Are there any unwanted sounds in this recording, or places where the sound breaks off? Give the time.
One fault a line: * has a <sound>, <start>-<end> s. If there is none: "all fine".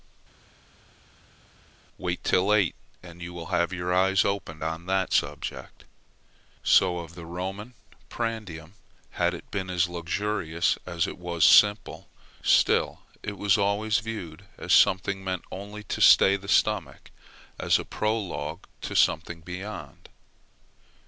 all fine